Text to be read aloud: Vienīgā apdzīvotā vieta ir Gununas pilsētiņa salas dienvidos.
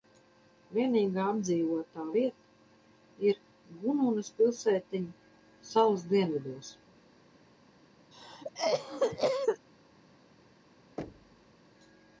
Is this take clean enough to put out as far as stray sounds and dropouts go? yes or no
no